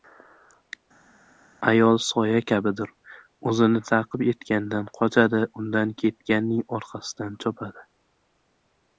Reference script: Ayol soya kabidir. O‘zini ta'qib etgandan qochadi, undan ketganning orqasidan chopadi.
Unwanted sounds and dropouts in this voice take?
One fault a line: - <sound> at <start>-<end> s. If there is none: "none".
none